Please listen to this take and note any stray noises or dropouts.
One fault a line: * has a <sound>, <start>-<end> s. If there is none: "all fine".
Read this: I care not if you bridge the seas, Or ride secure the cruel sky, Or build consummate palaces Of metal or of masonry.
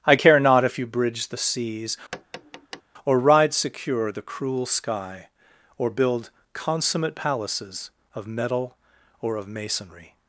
* has a tap, 2.1-2.8 s